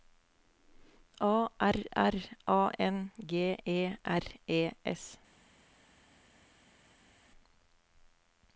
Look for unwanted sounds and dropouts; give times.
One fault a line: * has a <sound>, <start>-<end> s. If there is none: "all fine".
all fine